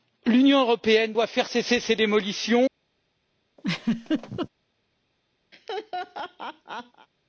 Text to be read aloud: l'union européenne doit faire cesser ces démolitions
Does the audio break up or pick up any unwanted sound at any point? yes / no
yes